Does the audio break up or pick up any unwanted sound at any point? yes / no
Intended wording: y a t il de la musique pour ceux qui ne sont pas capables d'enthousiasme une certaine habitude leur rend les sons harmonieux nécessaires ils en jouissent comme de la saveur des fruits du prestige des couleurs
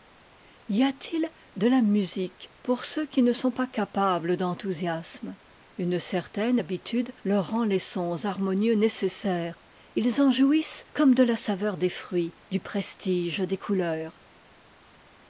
no